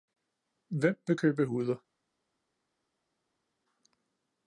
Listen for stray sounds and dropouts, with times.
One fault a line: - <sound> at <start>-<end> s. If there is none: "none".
none